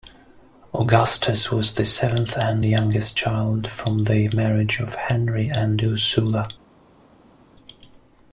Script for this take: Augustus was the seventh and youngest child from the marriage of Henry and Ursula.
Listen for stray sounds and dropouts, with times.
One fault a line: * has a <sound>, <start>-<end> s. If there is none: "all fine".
all fine